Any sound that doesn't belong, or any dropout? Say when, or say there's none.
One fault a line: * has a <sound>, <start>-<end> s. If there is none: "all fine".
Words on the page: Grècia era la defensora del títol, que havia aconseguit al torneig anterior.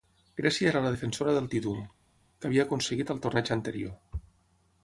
all fine